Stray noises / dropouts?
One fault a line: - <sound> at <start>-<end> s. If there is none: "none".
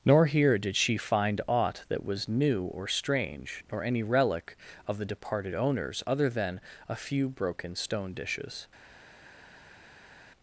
none